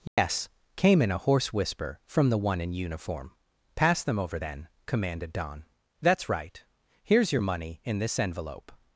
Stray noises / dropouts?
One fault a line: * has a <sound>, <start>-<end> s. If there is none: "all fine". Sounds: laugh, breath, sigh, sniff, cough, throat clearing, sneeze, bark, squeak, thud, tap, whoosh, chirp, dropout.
* has a dropout, 0.1-0.2 s